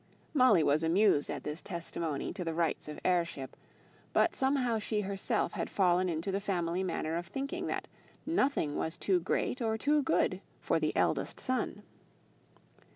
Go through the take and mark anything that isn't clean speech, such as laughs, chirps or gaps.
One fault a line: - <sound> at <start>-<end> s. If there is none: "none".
none